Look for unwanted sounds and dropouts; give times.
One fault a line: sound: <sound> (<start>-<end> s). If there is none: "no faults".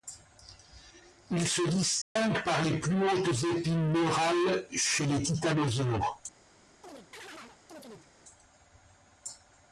sound: dropout (2.0-2.2 s)
sound: chirp (6.8-8.1 s)